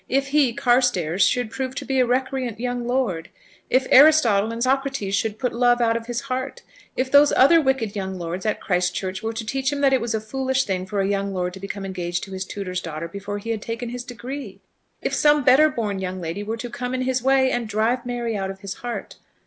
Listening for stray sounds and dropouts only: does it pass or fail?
pass